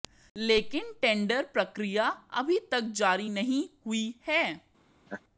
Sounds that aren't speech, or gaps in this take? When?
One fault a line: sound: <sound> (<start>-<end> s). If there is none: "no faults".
sound: laugh (5.1-5.2 s)